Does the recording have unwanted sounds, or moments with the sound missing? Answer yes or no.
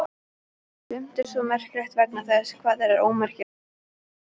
no